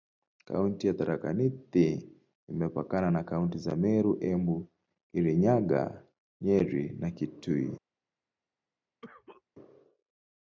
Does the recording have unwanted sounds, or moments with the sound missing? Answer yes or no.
yes